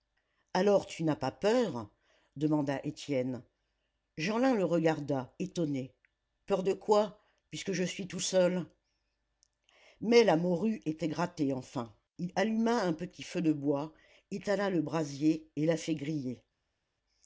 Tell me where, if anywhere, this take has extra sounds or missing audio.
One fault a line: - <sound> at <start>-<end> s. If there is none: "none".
none